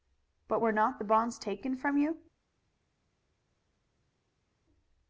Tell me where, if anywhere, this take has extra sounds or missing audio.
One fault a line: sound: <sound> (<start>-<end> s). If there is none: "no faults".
no faults